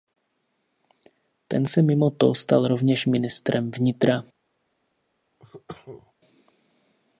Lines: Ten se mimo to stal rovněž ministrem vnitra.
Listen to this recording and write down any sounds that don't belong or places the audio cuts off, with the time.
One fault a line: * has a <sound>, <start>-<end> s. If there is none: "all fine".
* has a cough, 5.4-6.1 s